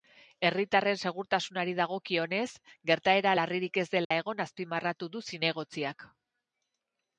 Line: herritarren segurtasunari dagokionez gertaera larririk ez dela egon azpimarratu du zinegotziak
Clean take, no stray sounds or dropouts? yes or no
no